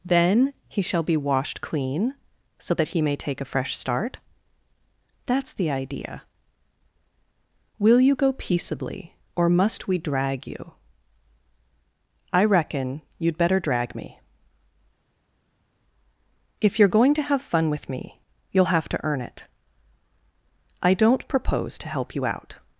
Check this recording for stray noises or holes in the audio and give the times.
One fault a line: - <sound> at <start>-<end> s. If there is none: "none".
none